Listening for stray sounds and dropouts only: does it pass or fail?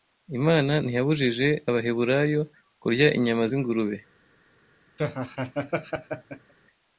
fail